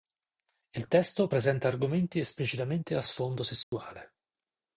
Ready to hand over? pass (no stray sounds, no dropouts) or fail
fail